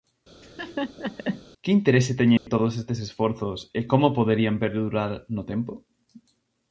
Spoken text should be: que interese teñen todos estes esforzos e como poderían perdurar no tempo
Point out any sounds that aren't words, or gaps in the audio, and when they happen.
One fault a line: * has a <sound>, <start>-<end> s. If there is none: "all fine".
* has a laugh, 0.4-1.4 s
* has a dropout, 2.4-2.5 s